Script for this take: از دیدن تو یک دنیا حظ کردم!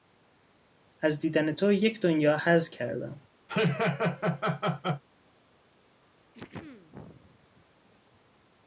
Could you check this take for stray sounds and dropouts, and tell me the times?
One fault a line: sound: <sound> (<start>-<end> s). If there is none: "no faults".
sound: laugh (3.5-5.0 s)
sound: throat clearing (6.3-7.7 s)